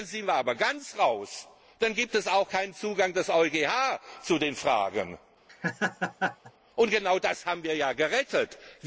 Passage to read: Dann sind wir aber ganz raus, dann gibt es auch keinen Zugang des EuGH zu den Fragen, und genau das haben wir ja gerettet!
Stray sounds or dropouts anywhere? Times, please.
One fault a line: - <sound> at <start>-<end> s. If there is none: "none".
- laugh at 5.5-6.5 s